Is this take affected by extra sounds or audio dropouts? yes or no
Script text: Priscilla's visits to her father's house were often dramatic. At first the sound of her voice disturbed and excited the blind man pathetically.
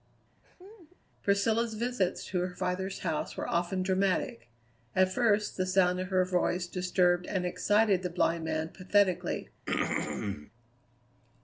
yes